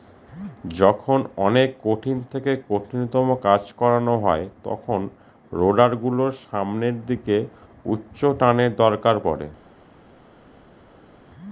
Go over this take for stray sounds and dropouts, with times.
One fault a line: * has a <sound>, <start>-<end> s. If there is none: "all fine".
all fine